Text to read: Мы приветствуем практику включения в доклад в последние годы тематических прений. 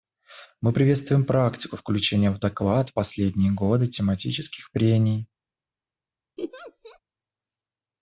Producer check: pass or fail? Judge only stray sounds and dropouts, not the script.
fail